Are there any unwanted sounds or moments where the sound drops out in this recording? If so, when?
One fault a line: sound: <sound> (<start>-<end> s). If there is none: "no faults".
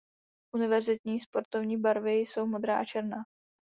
no faults